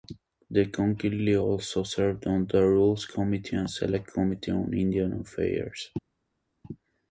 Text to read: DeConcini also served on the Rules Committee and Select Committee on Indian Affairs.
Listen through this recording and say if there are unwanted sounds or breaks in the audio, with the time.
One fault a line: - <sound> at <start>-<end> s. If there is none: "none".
none